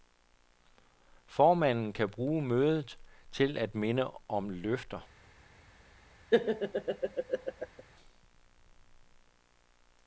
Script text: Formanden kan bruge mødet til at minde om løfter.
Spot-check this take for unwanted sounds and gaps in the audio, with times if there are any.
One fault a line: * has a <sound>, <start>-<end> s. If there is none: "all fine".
* has a laugh, 6.3-7.8 s